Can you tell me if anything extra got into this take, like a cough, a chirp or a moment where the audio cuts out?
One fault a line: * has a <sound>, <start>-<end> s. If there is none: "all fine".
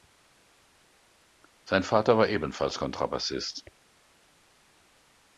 all fine